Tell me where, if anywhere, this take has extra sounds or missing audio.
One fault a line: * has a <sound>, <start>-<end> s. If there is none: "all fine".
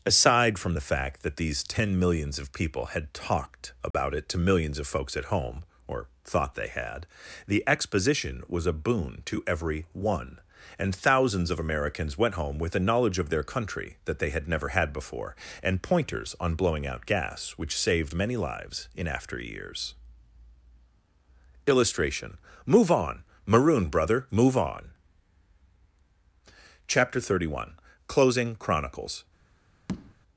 * has a dropout, 3.9-3.9 s
* has a tap, 29.9-30.1 s